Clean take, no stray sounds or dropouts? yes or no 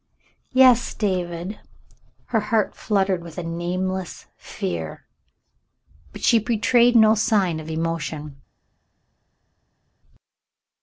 yes